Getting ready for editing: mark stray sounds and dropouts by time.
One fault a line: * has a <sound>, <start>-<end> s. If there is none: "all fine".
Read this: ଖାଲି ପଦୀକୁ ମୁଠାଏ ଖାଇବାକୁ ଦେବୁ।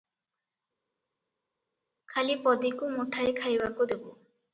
all fine